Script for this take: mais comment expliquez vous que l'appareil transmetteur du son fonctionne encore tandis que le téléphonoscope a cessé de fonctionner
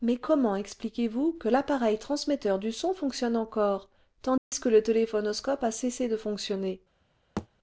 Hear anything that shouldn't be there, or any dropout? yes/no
yes